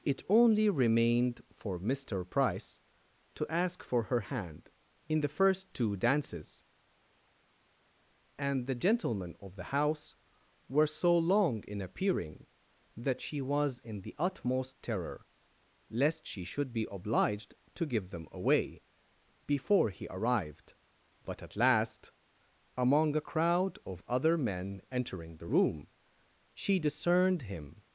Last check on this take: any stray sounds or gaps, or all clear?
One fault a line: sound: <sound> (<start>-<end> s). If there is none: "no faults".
no faults